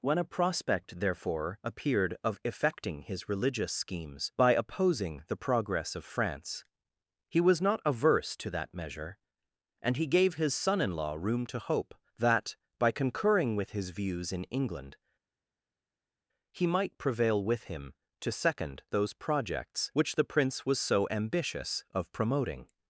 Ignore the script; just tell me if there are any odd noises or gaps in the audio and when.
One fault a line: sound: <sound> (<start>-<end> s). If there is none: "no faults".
no faults